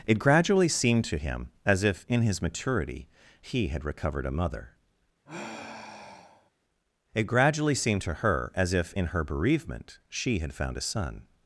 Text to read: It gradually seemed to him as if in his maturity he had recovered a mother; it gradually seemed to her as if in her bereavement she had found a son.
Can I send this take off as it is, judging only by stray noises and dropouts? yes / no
no